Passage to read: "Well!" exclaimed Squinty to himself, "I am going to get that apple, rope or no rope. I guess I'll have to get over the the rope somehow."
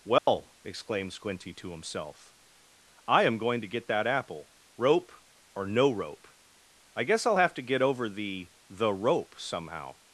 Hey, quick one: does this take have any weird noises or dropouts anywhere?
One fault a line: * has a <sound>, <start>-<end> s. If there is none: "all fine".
* has a dropout, 0.2-0.3 s